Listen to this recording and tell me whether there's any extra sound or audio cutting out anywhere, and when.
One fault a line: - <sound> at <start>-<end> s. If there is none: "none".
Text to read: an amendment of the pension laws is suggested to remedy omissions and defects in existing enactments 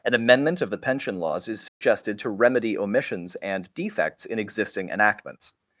- dropout at 1.7-1.8 s